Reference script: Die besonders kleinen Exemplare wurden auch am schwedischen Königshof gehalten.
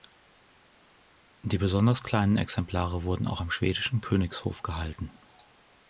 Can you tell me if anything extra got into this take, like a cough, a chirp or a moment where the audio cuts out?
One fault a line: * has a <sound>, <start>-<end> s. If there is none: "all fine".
all fine